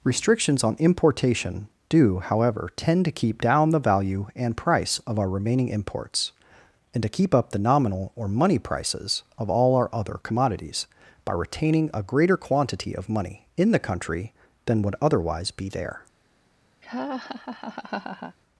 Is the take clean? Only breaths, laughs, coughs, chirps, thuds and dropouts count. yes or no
no